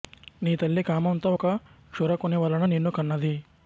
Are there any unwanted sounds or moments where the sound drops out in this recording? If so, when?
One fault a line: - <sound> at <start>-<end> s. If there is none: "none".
none